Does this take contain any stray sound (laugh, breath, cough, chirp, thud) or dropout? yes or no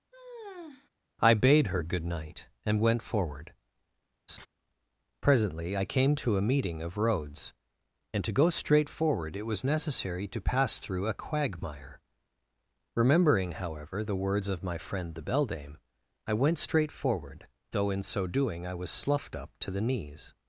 yes